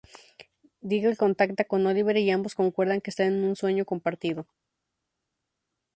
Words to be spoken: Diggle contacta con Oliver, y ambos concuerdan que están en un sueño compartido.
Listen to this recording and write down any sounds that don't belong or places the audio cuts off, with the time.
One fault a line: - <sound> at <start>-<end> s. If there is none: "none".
none